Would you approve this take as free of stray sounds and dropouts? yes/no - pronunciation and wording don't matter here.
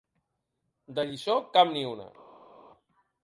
yes